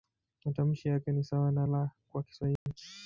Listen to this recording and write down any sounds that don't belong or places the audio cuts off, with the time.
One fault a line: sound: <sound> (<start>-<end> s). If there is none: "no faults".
sound: dropout (2.6-2.7 s)